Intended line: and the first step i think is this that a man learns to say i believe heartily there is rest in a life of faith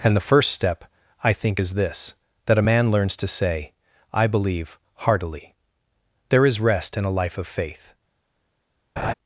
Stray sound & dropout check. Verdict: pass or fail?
fail